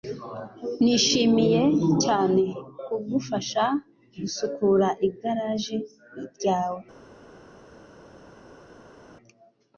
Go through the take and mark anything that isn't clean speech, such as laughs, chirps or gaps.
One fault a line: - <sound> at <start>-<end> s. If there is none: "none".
none